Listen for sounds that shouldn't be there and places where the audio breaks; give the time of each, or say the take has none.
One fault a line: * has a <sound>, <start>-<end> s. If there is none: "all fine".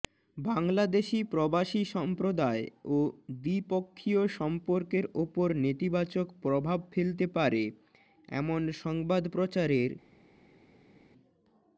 all fine